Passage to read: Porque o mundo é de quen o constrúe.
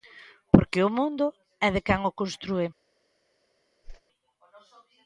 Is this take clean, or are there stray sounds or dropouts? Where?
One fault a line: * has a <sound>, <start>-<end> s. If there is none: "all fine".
* has a whoosh, 3.8-4.0 s